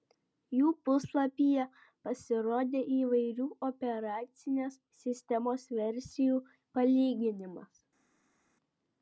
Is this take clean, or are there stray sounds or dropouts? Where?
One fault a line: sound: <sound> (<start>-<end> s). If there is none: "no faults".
no faults